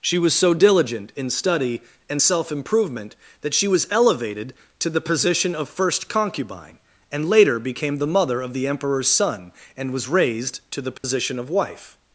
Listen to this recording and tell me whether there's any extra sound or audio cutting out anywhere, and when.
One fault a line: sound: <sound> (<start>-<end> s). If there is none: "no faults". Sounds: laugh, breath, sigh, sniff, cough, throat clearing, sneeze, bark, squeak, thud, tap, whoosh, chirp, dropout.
sound: dropout (11.0-11.0 s)